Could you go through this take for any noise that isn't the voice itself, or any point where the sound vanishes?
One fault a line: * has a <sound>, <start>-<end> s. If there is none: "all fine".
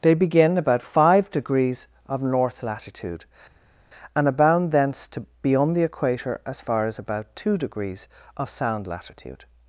all fine